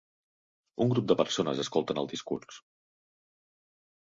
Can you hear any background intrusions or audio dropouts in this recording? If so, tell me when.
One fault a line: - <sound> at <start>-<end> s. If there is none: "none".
none